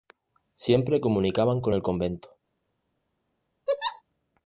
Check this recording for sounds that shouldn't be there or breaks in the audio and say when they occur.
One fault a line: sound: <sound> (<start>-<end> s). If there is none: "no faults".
sound: laugh (3.7-4.0 s)